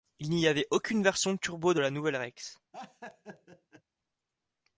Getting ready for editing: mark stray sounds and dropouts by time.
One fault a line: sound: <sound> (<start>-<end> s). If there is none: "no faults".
sound: laugh (2.7-3.8 s)